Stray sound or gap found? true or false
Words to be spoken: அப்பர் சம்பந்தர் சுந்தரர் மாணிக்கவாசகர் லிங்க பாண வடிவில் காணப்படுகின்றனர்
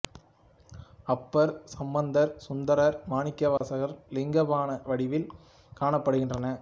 true